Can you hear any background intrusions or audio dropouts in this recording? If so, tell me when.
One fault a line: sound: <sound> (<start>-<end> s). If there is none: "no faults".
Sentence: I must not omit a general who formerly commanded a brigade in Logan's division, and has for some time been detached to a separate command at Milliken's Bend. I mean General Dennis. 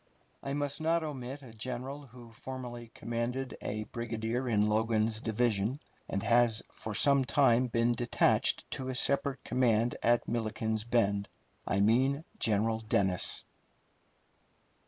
no faults